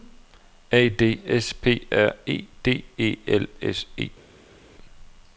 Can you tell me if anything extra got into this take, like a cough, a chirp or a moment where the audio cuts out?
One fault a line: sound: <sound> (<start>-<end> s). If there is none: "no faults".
no faults